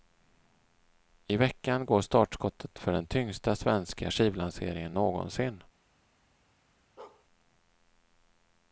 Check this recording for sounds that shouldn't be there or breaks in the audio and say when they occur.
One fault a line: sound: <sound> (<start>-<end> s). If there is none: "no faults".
sound: bark (7.0-7.3 s)